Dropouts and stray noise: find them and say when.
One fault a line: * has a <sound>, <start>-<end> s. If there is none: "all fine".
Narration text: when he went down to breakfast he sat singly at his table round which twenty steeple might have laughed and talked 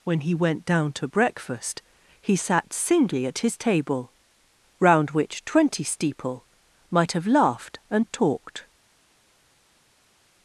all fine